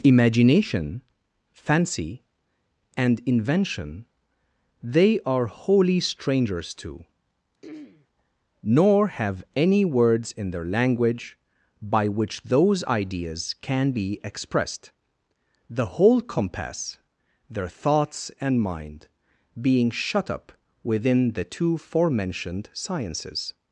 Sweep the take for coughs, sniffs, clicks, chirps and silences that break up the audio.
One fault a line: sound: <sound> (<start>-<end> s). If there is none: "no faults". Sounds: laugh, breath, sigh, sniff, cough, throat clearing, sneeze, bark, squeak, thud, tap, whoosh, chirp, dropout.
sound: throat clearing (7.6-8.1 s)